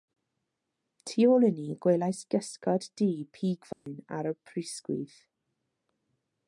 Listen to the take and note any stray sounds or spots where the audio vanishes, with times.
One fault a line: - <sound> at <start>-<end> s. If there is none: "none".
- dropout at 3.7-3.9 s